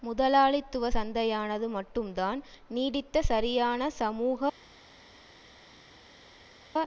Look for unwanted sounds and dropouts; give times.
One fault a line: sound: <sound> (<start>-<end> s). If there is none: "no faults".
no faults